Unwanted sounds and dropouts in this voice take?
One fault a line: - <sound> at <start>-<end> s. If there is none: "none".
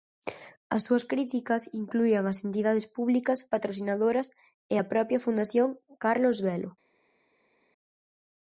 none